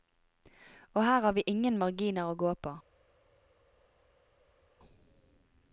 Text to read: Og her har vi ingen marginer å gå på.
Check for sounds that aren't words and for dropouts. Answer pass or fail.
pass